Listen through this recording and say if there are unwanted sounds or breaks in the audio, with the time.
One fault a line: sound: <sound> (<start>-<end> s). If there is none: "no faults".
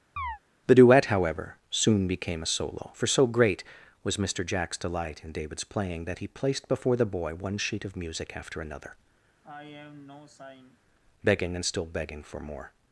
sound: chirp (0.2-0.4 s)
sound: sigh (9.4-10.8 s)